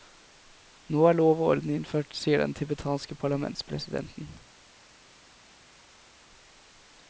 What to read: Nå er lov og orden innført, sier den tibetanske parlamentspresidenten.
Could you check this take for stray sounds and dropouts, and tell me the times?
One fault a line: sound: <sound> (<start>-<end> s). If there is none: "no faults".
no faults